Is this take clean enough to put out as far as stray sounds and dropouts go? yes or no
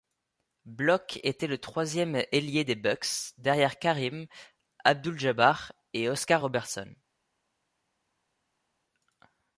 yes